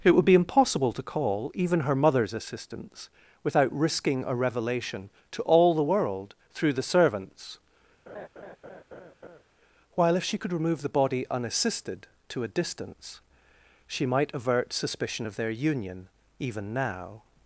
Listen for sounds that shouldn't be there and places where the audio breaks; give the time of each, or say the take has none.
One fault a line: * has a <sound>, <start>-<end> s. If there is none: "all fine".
* has a laugh, 8.1-9.4 s